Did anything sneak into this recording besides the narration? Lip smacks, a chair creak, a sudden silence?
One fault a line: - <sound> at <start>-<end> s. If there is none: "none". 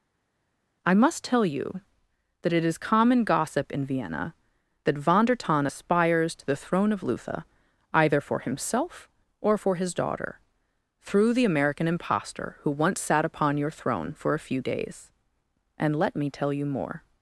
none